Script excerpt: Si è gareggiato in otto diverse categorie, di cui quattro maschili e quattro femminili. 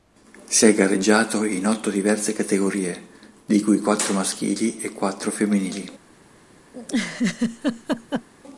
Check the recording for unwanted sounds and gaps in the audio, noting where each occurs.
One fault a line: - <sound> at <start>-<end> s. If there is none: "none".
- laugh at 6.7-8.3 s